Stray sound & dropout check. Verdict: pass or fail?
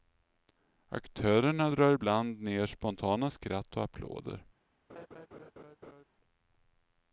fail